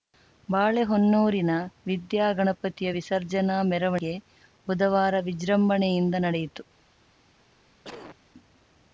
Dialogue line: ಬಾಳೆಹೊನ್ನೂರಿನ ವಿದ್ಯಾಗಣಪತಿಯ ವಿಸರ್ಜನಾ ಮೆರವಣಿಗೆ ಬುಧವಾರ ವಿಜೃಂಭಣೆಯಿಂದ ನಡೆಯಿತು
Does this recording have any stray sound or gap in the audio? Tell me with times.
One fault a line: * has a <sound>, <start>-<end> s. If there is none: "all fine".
* has a cough, 7.8-8.2 s